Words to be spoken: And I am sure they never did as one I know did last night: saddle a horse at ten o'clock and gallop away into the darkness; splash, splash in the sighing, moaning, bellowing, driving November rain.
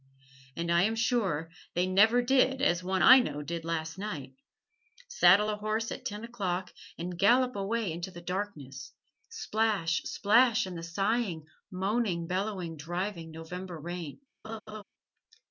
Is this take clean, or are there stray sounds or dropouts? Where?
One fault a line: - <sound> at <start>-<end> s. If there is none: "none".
- laugh at 14.4-14.8 s